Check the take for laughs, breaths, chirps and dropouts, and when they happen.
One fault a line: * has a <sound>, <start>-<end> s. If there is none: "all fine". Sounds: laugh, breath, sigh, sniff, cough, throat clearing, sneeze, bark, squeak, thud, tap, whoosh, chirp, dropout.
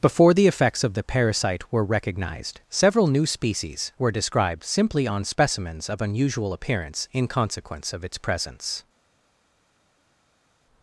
all fine